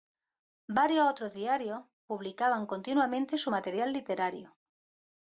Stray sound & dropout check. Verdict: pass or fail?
pass